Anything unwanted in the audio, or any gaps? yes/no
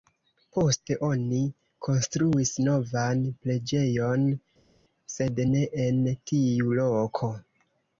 no